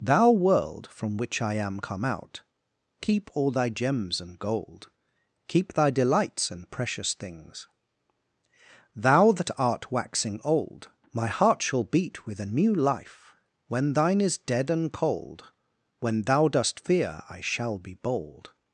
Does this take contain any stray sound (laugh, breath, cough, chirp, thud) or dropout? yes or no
no